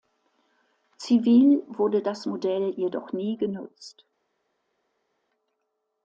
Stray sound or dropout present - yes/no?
no